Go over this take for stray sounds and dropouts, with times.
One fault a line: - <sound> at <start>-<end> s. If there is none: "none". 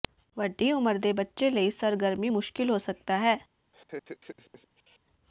- laugh at 3.7-5.0 s